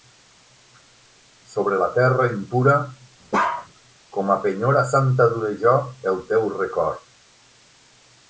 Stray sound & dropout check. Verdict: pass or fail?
fail